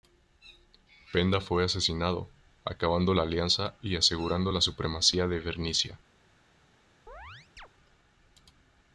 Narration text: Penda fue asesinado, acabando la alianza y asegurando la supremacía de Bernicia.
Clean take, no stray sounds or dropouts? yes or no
no